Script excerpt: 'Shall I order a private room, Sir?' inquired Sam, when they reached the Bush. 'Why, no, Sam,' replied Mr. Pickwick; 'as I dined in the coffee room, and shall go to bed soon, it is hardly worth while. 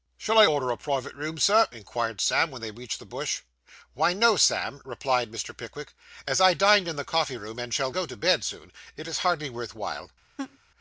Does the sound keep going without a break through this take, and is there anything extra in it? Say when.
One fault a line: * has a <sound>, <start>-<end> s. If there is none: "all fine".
* has a laugh, 10.4-10.6 s